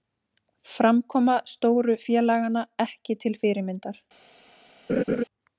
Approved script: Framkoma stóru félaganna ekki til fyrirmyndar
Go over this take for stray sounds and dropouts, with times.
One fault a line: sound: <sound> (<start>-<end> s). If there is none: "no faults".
sound: laugh (4.9-5.2 s)